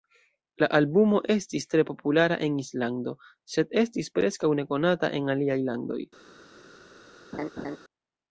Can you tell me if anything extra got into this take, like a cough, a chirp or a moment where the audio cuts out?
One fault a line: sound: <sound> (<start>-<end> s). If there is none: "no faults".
sound: laugh (7.3-7.8 s)